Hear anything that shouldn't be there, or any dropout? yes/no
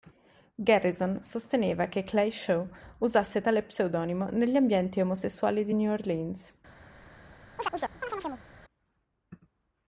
yes